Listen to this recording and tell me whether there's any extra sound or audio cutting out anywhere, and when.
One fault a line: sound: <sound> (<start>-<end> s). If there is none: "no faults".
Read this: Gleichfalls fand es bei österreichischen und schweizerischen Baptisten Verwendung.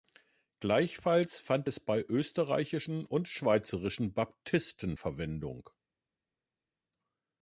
no faults